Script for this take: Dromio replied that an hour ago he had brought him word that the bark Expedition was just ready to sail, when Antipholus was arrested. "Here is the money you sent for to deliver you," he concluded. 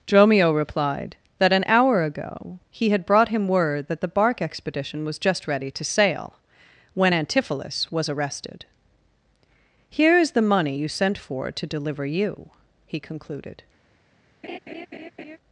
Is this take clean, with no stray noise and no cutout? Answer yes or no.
no